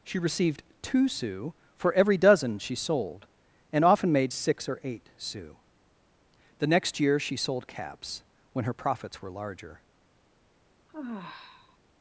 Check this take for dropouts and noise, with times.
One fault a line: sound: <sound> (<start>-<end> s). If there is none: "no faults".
sound: sigh (10.9-11.8 s)